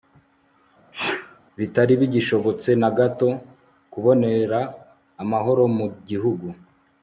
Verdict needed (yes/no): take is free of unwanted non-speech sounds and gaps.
no